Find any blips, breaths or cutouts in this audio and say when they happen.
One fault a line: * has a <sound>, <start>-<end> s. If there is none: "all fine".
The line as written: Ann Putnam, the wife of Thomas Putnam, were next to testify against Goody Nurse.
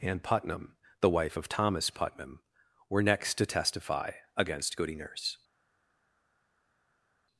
all fine